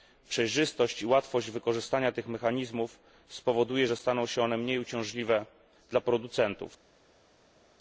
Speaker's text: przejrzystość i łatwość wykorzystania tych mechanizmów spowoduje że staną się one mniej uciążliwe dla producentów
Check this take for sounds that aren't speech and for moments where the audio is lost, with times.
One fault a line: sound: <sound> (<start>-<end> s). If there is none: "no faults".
no faults